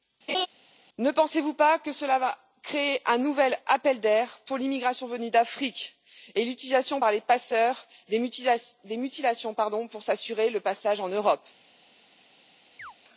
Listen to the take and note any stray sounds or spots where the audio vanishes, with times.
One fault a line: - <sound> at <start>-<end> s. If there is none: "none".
- laugh at 0.3-0.5 s
- chirp at 12.8-12.9 s